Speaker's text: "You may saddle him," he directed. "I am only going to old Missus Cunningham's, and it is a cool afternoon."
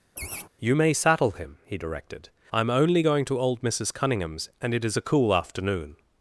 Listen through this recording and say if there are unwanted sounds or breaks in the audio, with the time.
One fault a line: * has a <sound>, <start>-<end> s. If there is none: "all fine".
* has a laugh, 0.2-0.5 s